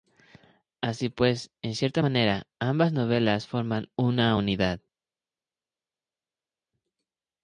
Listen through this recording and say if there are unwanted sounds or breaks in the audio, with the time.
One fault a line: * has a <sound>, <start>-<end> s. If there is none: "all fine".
all fine